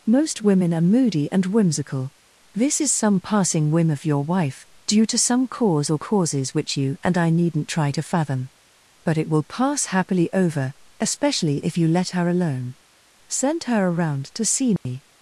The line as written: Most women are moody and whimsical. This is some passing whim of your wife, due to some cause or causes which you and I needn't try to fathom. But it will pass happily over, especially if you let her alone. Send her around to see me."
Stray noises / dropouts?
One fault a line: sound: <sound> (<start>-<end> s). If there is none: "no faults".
sound: dropout (14.8-14.9 s)